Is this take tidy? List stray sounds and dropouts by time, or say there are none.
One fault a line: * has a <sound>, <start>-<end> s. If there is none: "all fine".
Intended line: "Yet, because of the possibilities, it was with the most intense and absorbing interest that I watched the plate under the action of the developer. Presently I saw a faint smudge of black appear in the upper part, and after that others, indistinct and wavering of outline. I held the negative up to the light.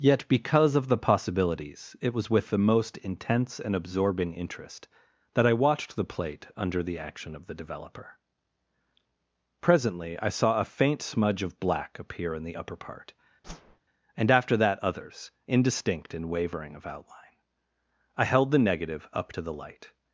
* has a whoosh, 13.4-13.8 s